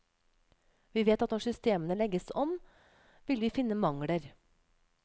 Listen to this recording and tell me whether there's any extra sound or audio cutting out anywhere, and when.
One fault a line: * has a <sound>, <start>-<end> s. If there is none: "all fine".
all fine